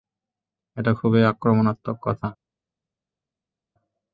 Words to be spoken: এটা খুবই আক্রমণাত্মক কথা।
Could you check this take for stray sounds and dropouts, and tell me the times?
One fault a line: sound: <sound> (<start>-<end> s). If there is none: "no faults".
no faults